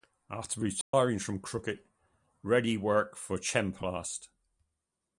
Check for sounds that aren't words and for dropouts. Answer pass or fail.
fail